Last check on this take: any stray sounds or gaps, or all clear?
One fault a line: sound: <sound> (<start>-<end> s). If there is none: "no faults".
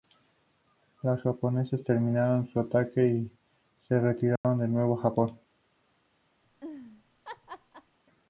sound: dropout (4.4-4.4 s)
sound: laugh (6.4-8.0 s)